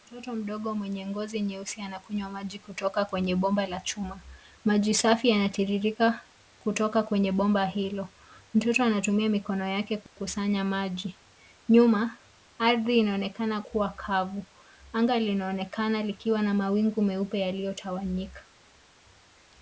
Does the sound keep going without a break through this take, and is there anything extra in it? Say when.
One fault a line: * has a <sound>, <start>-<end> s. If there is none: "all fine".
* has a dropout, 10.1-10.2 s